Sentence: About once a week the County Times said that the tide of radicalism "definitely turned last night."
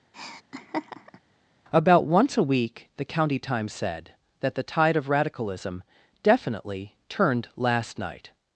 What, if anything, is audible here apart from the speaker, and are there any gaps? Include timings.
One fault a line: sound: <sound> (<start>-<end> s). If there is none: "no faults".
sound: laugh (0.1-1.2 s)